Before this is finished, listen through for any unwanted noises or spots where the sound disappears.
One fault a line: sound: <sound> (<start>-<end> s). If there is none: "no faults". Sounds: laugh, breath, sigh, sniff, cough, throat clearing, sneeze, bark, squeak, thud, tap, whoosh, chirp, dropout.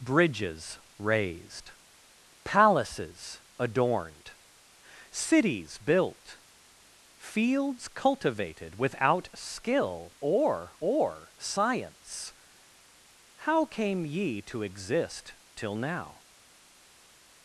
no faults